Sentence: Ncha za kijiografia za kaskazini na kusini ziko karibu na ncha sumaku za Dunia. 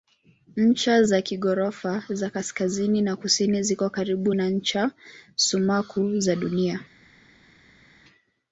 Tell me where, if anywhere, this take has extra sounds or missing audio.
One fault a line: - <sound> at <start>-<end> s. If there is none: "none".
none